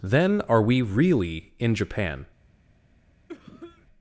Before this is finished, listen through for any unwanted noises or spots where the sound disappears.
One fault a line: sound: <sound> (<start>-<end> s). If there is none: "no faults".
sound: cough (3.3-3.9 s)